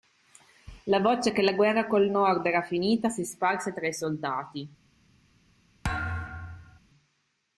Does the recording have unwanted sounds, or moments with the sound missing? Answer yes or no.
yes